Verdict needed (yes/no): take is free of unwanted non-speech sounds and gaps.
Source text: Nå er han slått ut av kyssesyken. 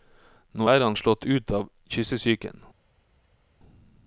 yes